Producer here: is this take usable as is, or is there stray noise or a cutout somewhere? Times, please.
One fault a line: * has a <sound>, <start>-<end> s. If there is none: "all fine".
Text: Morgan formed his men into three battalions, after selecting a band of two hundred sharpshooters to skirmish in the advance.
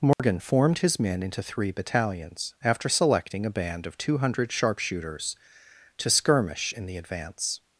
* has a dropout, 0.1-0.2 s